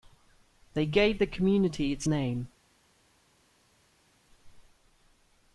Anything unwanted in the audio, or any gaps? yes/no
no